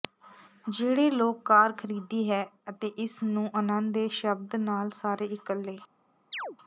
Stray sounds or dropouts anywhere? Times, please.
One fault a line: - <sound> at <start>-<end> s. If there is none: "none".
- chirp at 6.3-6.6 s